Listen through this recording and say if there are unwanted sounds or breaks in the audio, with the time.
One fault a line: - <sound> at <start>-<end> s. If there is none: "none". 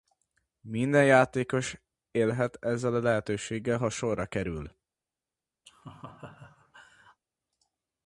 - laugh at 5.7-7.2 s